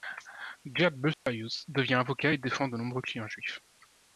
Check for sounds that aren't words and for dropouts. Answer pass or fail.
fail